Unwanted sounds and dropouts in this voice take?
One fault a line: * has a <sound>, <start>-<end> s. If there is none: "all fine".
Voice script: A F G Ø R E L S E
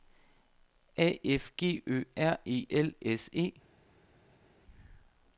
all fine